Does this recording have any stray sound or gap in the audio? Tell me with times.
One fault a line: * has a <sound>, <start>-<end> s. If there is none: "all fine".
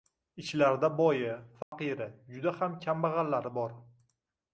* has a dropout, 1.6-1.7 s